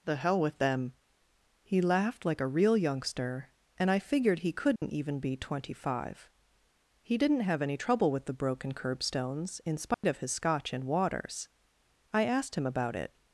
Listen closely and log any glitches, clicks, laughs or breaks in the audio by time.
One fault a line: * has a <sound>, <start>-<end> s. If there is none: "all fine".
* has a dropout, 4.8-4.8 s
* has a dropout, 9.9-10.0 s